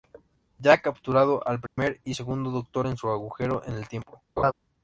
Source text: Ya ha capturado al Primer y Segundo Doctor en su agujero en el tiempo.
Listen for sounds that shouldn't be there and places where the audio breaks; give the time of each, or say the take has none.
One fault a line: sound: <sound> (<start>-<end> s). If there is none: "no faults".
sound: dropout (1.7-1.8 s)
sound: laugh (4.4-4.5 s)